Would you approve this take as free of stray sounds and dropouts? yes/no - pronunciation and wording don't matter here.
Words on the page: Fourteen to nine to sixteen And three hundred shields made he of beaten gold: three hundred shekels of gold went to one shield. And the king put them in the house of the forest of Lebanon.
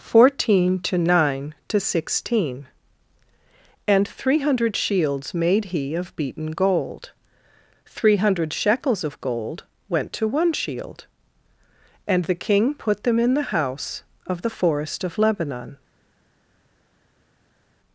yes